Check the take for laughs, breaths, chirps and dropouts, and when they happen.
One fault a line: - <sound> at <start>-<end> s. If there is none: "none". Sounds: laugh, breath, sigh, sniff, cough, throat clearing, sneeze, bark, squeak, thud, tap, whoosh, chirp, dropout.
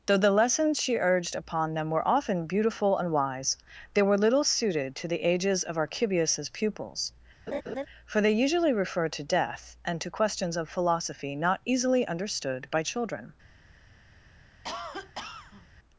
- laugh at 7.5-7.9 s
- cough at 14.6-15.7 s